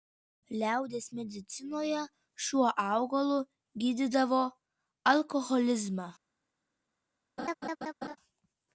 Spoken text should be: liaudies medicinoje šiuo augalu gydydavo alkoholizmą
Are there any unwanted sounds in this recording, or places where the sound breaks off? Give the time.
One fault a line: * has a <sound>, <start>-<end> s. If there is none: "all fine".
* has a laugh, 7.4-8.2 s